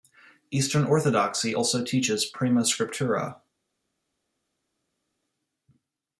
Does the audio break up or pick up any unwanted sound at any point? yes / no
no